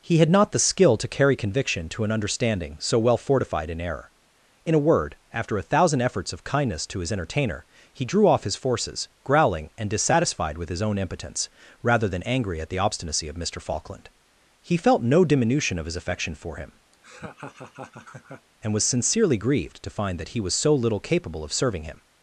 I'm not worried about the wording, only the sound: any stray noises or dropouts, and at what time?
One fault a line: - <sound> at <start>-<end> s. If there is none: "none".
- laugh at 16.9-18.5 s